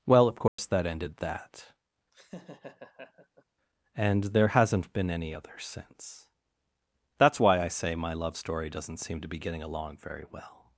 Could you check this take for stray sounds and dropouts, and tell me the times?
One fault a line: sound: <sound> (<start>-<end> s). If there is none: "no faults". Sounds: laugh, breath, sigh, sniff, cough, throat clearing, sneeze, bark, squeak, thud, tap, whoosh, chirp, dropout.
sound: dropout (0.5-0.6 s)
sound: laugh (2.1-3.4 s)